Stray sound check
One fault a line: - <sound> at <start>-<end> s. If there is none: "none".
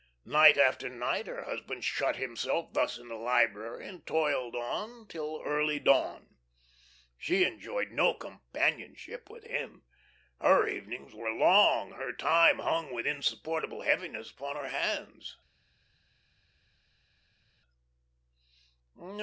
none